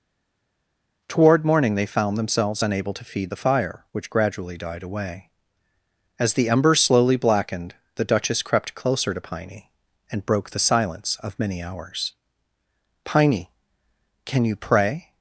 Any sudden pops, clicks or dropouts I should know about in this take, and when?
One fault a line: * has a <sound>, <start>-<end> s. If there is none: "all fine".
all fine